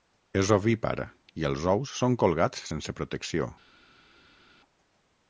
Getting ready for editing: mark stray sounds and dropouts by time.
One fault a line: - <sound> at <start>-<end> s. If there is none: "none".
none